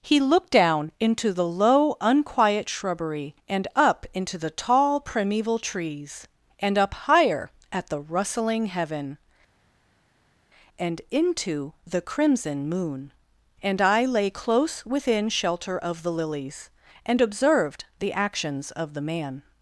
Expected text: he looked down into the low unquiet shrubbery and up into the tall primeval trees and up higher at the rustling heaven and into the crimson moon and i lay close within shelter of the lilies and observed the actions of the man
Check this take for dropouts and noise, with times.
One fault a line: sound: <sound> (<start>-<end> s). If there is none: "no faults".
no faults